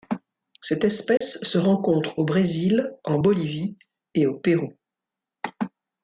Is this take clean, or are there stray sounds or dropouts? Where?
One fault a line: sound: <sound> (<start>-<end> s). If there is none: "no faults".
sound: dropout (1.2-1.2 s)